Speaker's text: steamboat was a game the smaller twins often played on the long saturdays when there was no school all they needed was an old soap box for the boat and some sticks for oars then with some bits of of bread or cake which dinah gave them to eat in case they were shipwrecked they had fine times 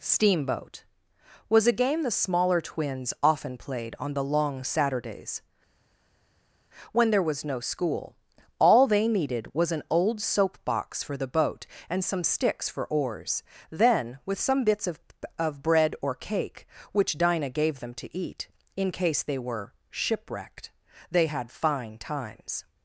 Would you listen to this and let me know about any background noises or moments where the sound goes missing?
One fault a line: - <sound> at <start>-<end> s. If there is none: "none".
none